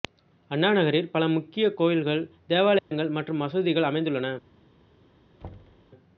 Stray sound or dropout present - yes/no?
yes